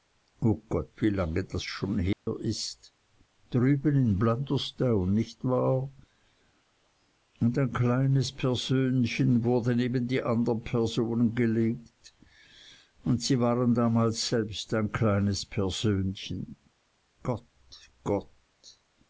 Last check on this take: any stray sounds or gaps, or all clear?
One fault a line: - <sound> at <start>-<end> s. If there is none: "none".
- dropout at 2.1-2.3 s